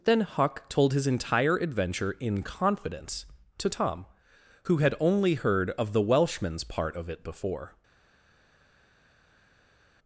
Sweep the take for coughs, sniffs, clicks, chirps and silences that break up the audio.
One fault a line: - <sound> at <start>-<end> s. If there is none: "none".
none